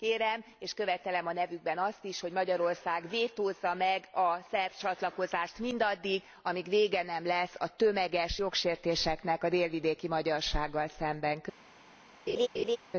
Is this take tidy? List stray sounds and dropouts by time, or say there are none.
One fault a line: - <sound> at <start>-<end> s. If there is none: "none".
- laugh at 12.3-12.8 s